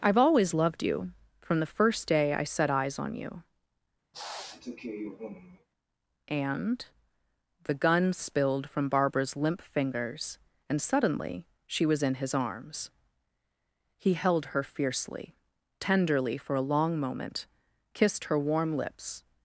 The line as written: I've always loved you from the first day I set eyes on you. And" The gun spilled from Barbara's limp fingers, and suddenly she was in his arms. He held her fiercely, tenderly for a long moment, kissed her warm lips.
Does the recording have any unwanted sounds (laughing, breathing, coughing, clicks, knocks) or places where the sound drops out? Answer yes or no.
yes